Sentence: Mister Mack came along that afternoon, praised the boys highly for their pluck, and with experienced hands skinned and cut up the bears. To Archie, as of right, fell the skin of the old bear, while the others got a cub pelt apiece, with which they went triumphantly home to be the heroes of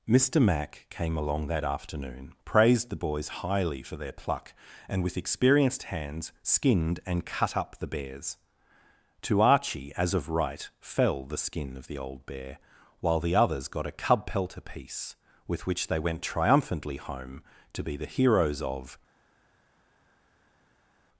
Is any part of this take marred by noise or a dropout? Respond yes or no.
no